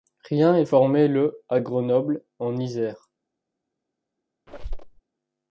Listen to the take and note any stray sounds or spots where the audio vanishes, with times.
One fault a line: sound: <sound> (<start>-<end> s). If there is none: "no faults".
sound: squeak (4.5-5.0 s)